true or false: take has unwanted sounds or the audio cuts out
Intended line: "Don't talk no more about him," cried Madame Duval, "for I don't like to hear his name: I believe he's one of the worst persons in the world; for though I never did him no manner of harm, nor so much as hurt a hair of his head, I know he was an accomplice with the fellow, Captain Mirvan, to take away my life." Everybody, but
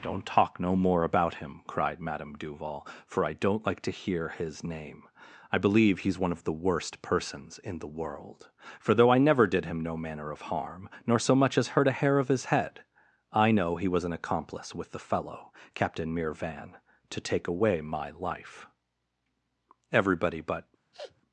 true